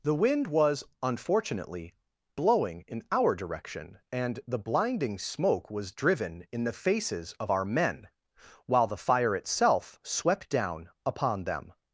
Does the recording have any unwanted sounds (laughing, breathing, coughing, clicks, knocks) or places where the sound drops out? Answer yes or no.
no